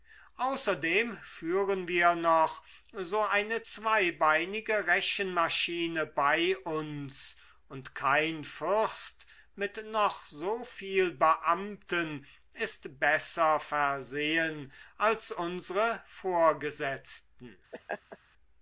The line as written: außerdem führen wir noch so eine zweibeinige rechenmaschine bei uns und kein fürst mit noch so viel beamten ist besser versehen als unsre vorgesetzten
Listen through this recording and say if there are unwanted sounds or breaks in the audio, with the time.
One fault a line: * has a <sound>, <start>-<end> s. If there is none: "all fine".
* has a laugh, 17.7-18.2 s